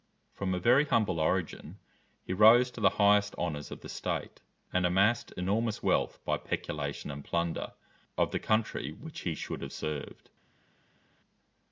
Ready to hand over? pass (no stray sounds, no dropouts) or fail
pass